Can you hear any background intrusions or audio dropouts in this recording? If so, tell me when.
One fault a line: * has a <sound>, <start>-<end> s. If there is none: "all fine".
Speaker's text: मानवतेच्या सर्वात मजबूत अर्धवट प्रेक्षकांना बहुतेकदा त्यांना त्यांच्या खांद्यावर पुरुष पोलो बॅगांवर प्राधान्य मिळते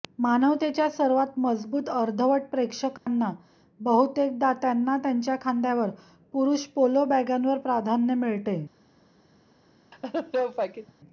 * has a dropout, 3.0-3.1 s
* has a laugh, 9.9-10.9 s